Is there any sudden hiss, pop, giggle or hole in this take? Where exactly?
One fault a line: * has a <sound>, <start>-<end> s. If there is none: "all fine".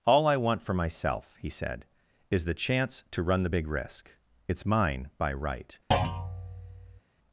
* has a thud, 5.9-7.0 s